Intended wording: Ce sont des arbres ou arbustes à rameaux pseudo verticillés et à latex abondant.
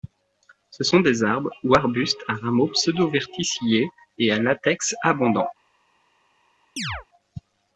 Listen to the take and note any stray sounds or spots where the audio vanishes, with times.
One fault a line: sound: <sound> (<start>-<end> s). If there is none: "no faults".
sound: chirp (6.8-7.1 s)